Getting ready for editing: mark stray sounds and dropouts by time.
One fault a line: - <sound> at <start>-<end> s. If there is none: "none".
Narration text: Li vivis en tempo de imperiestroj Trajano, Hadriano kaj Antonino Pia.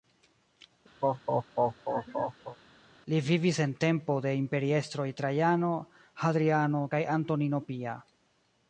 - laugh at 1.0-2.6 s